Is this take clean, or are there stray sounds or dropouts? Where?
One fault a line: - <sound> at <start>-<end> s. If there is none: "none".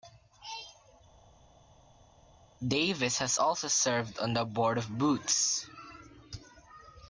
none